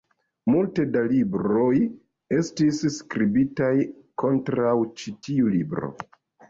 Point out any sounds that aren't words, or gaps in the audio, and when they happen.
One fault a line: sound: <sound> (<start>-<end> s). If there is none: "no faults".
no faults